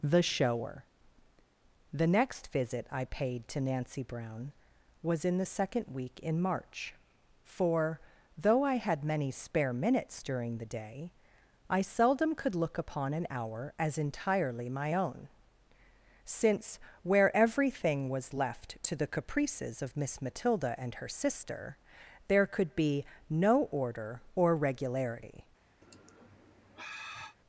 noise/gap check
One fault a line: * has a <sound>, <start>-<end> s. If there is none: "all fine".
* has a sigh, 25.8-27.4 s